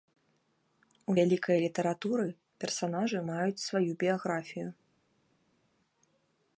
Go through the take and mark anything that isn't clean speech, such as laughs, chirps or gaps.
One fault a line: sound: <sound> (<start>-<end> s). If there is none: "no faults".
no faults